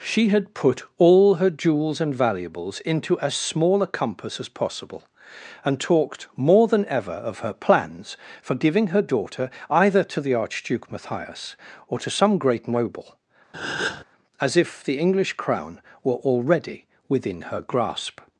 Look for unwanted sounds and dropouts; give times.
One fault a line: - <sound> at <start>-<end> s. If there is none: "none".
- breath at 13.5-14.0 s